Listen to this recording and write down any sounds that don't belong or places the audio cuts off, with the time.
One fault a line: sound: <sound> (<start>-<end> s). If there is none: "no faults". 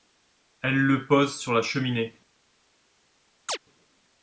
sound: chirp (3.5-3.6 s)